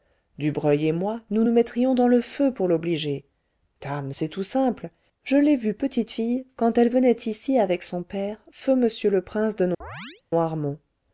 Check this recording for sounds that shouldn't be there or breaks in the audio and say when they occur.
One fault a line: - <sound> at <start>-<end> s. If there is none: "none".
- chirp at 9.8-10.2 s